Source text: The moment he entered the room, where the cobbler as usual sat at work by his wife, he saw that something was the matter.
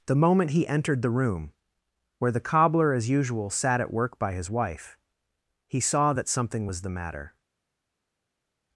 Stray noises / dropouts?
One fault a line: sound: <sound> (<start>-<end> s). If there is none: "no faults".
no faults